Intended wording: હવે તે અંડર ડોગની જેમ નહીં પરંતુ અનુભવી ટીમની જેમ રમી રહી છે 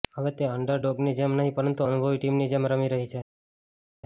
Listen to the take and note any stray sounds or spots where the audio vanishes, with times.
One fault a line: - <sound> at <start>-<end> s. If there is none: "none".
none